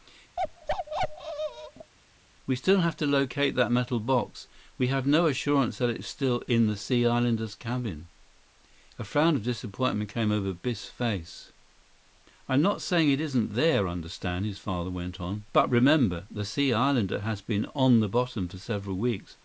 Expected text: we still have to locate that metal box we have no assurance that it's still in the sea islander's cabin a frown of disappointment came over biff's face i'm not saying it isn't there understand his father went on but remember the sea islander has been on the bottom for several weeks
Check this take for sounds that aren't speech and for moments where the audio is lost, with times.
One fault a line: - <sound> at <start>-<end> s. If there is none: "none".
- bark at 0.4-1.9 s